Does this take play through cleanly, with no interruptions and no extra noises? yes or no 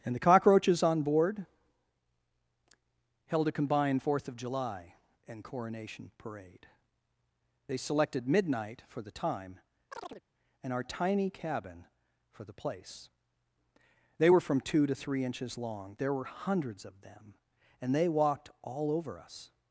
no